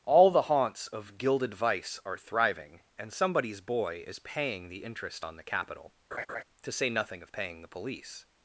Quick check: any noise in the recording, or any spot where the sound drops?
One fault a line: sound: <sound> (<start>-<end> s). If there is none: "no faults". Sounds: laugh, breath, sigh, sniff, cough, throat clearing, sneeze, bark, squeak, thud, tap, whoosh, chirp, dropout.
sound: laugh (6.1-6.4 s)